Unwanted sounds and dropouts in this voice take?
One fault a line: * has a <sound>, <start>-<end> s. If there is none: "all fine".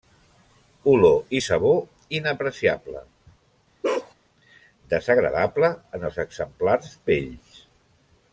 * has a bark, 3.8-4.1 s